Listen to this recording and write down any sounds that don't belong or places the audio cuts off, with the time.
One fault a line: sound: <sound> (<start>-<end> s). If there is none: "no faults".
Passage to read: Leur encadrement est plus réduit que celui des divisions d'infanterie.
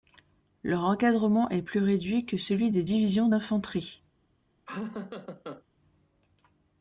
sound: laugh (4.7-5.6 s)